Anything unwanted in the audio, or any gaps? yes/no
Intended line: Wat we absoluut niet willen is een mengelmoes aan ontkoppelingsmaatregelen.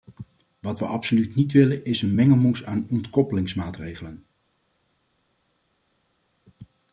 no